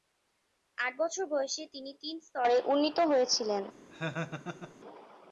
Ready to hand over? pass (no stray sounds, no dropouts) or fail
fail